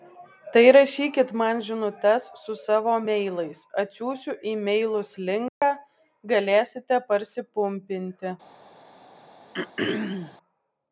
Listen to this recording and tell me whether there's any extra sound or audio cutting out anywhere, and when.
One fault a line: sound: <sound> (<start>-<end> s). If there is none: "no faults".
sound: dropout (5.5-5.6 s)
sound: throat clearing (9.5-10.4 s)